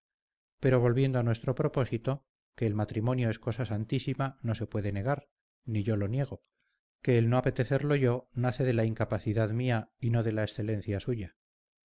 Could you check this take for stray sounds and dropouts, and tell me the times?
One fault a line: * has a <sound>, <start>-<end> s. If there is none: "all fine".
all fine